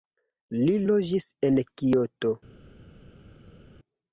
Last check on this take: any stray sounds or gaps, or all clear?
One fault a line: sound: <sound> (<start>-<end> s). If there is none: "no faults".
no faults